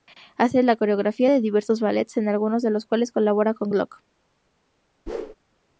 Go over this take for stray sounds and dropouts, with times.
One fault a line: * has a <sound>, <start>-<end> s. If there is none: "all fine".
* has a whoosh, 5.1-5.3 s